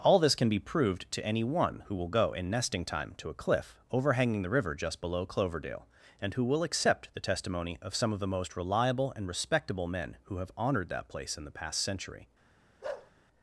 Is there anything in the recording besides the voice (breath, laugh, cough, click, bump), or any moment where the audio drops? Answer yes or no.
yes